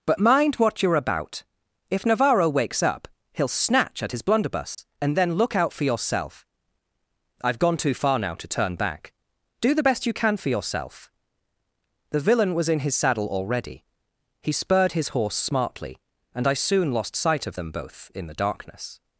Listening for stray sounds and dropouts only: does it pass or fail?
fail